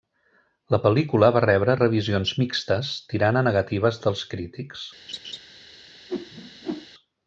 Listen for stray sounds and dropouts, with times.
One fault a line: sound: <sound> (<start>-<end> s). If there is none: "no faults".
sound: laugh (5.1-5.4 s)
sound: whoosh (6.1-6.9 s)